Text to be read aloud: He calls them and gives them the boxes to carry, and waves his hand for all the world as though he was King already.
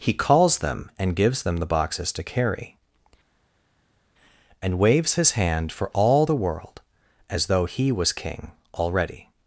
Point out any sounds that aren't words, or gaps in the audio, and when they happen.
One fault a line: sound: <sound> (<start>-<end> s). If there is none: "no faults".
no faults